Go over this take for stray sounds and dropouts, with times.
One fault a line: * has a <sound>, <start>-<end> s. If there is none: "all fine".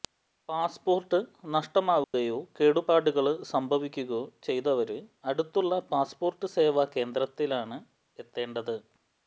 * has a dropout, 2.0-2.1 s